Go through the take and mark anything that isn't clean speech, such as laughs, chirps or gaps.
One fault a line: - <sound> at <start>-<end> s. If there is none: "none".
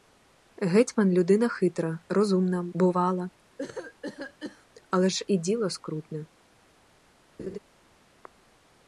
- cough at 3.6-4.7 s
- laugh at 7.4-7.6 s